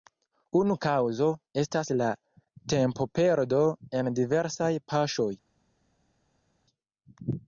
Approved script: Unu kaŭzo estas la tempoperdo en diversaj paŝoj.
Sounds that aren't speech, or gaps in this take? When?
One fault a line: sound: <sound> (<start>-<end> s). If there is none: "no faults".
no faults